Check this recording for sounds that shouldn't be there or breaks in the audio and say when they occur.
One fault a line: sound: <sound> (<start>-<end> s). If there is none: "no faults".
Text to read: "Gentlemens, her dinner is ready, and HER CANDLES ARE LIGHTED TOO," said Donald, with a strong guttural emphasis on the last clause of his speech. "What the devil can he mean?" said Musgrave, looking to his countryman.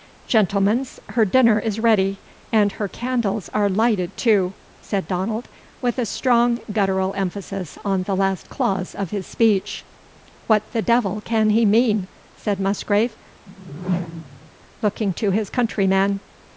sound: whoosh (13.5-14.5 s)